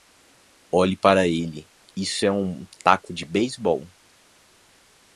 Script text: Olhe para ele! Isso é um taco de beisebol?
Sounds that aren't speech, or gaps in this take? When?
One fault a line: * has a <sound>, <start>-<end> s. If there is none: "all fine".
all fine